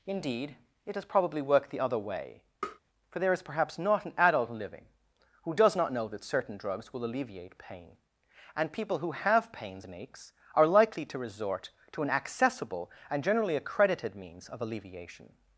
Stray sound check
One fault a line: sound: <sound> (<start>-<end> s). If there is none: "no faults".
sound: tap (2.6-2.8 s)